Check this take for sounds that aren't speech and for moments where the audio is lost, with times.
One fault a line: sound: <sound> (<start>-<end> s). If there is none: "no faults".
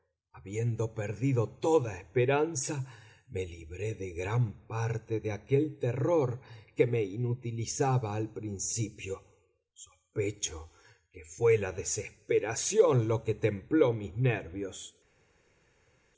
no faults